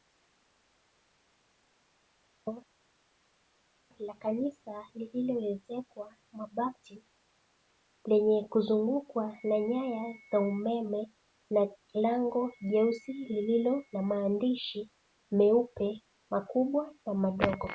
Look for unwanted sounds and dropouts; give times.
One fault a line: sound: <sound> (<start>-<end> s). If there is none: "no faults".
no faults